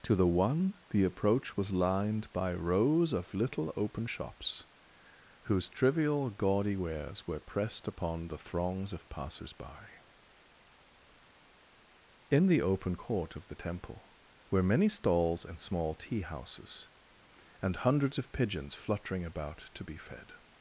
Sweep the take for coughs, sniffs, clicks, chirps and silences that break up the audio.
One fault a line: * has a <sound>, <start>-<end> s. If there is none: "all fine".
all fine